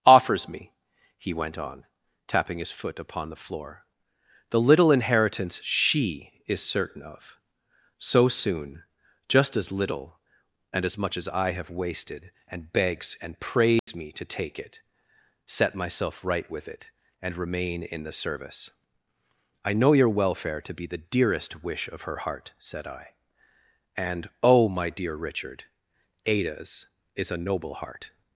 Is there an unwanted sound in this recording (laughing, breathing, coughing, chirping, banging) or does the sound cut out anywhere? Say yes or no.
yes